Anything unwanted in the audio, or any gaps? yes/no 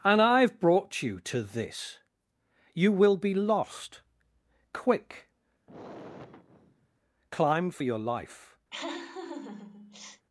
yes